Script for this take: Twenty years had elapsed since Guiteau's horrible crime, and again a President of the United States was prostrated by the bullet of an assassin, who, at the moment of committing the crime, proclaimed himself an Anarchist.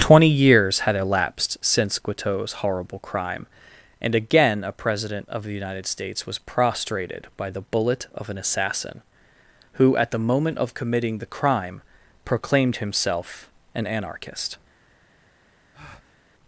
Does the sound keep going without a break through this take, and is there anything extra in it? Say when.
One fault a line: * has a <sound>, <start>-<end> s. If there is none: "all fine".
* has a breath, 15.7-16.2 s